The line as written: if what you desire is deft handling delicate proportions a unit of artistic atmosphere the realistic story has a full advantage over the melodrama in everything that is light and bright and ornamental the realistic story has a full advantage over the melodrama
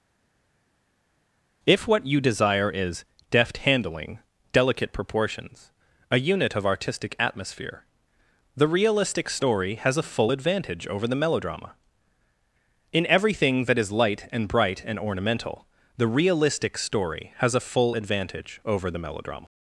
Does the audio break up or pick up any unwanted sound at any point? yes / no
no